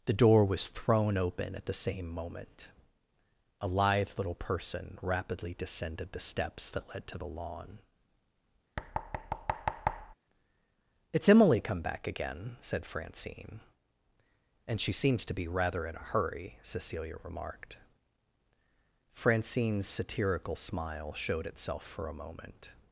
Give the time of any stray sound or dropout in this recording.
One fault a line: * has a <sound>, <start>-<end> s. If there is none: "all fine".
* has a thud, 8.8-10.1 s